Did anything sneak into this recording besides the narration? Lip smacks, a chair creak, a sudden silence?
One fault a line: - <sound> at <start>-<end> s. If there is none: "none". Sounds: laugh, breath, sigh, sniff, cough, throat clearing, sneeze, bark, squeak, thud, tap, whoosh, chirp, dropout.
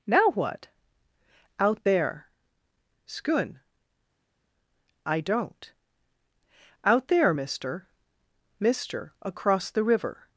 none